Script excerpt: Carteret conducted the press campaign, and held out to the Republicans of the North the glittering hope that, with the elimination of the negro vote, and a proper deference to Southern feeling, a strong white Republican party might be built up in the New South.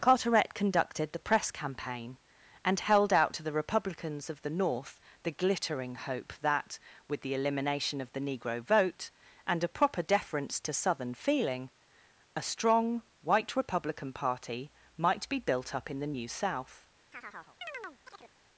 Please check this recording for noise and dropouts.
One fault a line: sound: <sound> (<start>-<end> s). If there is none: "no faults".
sound: chirp (17.1-18.3 s)